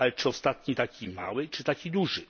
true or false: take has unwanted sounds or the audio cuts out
false